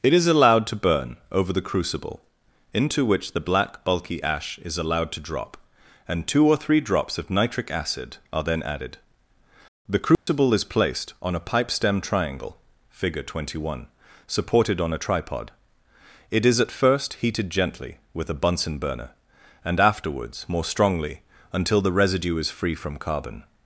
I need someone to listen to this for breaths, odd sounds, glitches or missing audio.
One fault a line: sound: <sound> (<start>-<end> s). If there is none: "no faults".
sound: dropout (10.1-10.3 s)